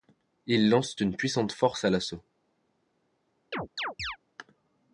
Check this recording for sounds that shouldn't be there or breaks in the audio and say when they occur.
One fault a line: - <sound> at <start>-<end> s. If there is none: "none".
- chirp at 3.5-4.2 s